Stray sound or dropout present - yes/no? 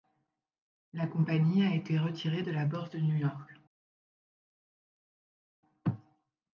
no